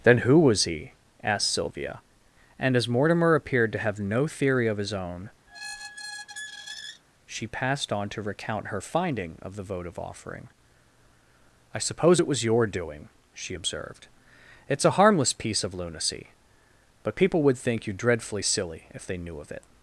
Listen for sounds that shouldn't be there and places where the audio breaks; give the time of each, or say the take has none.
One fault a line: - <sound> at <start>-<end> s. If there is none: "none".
- squeak at 5.5-7.0 s